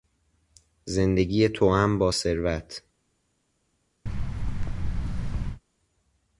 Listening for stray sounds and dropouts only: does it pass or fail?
fail